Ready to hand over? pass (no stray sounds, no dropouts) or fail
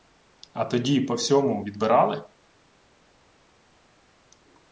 pass